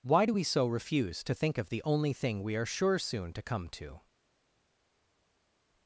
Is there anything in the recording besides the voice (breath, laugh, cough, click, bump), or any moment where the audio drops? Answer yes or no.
no